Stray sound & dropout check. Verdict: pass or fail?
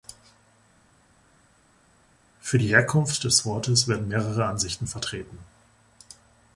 pass